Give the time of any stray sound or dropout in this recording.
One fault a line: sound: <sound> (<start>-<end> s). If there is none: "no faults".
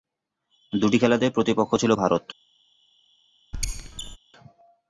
sound: squeak (3.5-4.2 s)